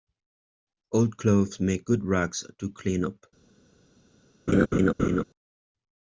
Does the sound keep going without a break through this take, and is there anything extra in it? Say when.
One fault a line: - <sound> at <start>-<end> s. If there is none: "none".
- laugh at 4.5-5.2 s